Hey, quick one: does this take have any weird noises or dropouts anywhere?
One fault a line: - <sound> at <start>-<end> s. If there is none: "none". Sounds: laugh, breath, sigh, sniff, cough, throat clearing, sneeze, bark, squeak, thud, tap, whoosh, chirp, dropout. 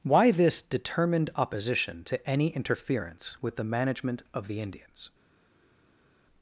none